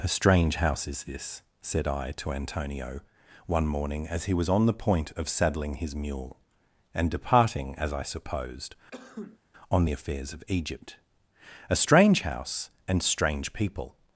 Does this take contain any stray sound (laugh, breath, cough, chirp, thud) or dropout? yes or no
yes